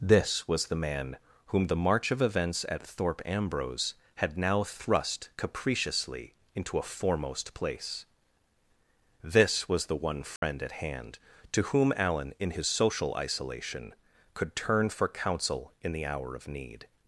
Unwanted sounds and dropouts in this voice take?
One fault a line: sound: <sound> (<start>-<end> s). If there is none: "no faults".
sound: dropout (10.4-10.4 s)